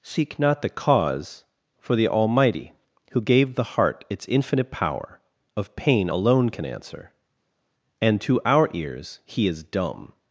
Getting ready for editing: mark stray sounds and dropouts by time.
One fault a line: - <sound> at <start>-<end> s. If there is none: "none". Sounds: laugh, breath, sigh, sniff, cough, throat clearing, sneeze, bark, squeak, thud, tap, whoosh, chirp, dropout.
none